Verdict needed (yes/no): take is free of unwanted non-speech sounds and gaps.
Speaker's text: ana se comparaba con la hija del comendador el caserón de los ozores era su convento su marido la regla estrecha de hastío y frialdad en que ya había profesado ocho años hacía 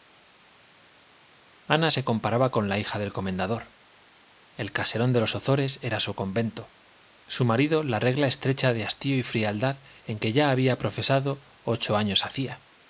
yes